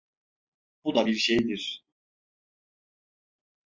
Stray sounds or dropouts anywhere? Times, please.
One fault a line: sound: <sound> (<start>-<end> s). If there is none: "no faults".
no faults